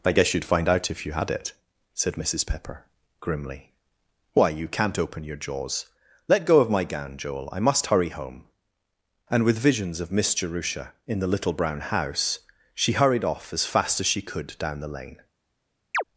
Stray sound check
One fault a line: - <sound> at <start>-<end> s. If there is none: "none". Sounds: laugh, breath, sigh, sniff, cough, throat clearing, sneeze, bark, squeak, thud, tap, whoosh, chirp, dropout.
- chirp at 15.9-16.0 s